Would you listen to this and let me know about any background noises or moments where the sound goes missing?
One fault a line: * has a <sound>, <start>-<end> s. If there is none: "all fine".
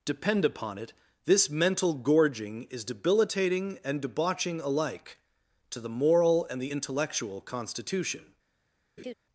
* has a laugh, 9.0-9.1 s